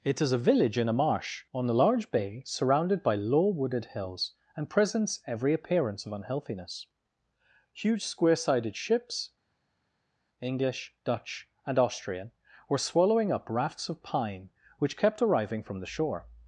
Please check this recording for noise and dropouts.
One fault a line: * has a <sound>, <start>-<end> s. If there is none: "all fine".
all fine